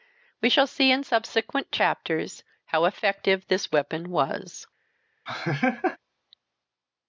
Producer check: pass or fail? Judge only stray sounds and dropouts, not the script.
fail